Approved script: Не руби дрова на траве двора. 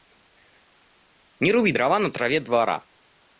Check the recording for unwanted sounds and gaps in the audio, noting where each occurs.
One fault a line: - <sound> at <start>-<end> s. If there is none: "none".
none